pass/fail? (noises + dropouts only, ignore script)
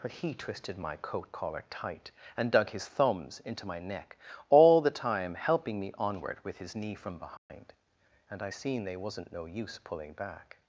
fail